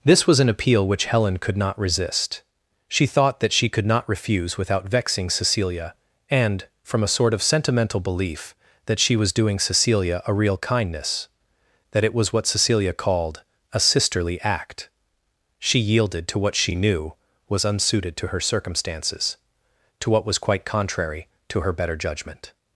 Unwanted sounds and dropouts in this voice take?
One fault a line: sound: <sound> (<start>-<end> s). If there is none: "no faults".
no faults